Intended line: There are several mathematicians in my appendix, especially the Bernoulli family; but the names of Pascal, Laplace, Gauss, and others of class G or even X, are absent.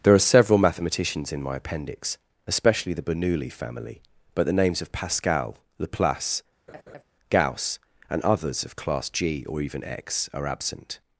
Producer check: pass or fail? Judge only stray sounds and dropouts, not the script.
fail